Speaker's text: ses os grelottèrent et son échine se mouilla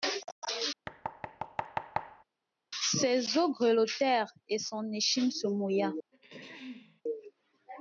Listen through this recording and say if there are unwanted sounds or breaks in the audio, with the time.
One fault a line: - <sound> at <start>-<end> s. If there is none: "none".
- thud at 0.9-2.2 s
- throat clearing at 6.1-7.0 s